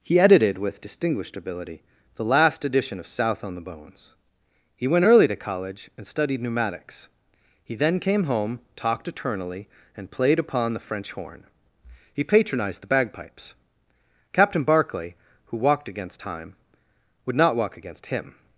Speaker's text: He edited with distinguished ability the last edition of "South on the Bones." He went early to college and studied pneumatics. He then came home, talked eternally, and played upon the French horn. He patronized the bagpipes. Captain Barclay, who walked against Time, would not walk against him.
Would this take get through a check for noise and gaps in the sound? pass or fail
pass